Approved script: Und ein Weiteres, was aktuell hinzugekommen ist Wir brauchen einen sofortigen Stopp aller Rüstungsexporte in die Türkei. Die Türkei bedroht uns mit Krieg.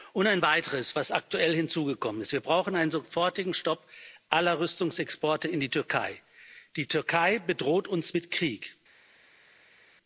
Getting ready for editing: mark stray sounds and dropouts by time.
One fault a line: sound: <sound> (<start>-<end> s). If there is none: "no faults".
no faults